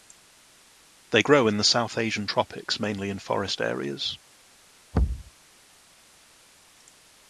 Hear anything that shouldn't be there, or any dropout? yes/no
yes